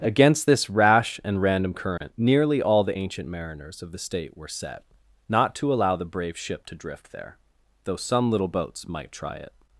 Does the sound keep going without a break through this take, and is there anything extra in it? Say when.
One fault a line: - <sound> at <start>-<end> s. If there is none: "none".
- dropout at 2.0-2.0 s